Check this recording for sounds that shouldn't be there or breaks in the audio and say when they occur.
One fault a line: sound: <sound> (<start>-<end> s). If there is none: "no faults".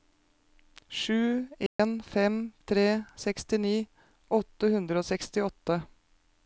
sound: dropout (1.7-1.8 s)